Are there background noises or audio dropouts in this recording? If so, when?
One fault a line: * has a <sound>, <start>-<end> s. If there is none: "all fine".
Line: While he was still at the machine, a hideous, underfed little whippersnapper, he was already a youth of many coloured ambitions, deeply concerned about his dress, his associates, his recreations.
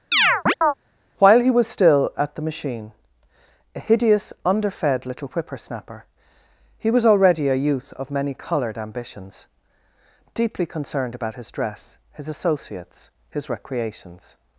* has a chirp, 0.1-0.7 s